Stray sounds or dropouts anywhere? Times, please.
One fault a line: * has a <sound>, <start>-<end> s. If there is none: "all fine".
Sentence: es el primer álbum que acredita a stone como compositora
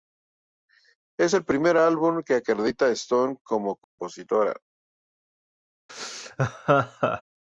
* has a dropout, 3.8-4.0 s
* has a laugh, 5.9-7.2 s